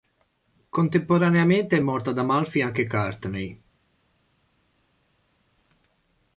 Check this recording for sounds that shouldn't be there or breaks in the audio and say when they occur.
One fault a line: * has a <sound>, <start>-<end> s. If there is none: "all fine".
all fine